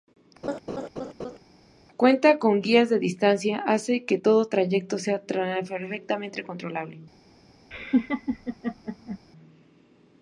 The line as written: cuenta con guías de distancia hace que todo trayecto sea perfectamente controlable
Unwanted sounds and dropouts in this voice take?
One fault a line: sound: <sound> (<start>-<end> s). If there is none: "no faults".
sound: laugh (0.4-1.4 s)
sound: laugh (7.7-9.2 s)